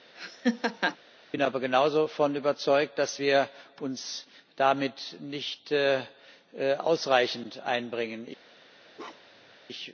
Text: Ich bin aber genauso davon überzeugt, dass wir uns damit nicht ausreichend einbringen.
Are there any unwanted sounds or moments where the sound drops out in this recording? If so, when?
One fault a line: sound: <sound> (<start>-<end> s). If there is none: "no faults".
sound: laugh (0.1-1.0 s)
sound: bark (8.9-9.5 s)